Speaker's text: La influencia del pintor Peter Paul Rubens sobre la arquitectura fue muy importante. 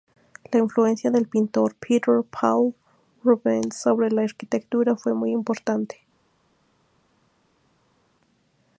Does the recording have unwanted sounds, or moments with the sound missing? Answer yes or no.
no